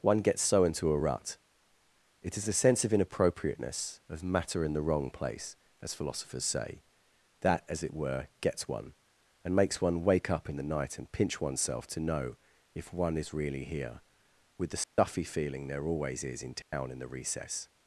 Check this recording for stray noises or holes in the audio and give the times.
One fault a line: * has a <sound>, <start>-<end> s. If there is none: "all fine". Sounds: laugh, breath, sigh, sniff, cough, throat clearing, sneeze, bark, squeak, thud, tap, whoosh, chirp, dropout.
* has a dropout, 14.8-15.0 s
* has a dropout, 16.6-16.7 s